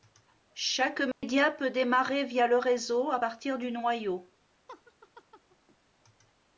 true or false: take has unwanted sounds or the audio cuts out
true